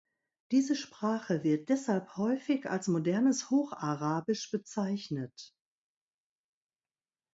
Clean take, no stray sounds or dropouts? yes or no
yes